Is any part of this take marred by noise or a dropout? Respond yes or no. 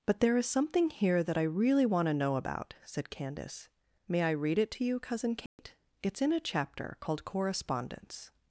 yes